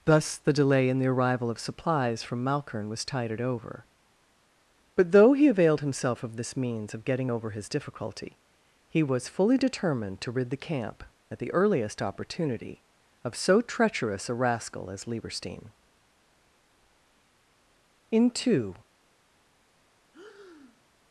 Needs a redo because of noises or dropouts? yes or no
yes